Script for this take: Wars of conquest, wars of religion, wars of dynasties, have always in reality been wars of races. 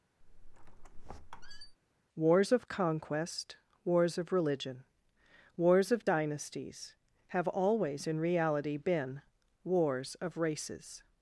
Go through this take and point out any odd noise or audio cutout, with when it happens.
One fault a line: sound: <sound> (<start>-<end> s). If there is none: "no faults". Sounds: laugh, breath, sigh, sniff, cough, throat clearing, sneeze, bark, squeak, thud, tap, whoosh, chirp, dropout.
sound: squeak (0.2-1.8 s)